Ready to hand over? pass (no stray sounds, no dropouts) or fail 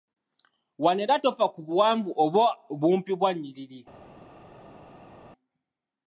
pass